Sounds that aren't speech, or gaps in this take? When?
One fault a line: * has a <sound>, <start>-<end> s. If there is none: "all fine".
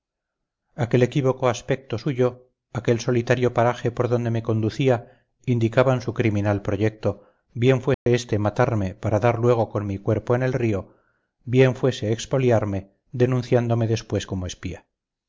* has a dropout, 7.9-8.1 s